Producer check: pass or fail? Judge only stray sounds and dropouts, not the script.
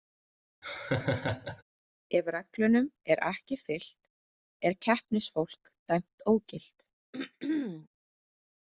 fail